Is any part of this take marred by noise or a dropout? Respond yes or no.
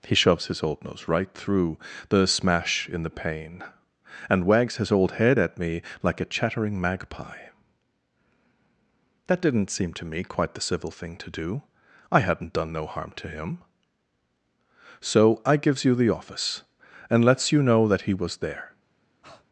yes